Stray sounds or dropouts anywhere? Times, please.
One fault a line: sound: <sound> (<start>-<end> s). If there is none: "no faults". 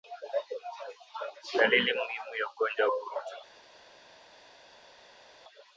no faults